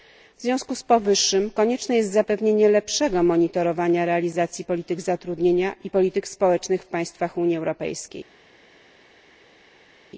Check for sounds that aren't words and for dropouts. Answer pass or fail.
pass